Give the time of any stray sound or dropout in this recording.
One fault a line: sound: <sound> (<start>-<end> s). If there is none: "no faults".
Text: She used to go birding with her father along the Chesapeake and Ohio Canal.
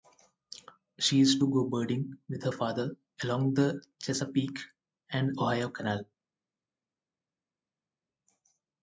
no faults